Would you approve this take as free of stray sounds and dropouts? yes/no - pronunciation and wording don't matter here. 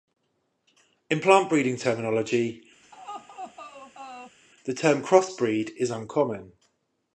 no